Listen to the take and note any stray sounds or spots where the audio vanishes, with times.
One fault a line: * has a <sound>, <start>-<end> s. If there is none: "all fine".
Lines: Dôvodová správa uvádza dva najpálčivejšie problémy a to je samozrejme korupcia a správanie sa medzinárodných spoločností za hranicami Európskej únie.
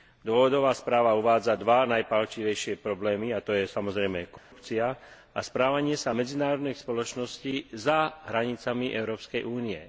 * has a dropout, 4.4-4.5 s